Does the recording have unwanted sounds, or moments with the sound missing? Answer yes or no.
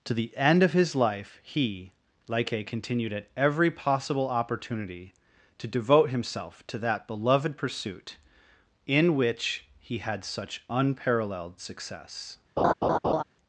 yes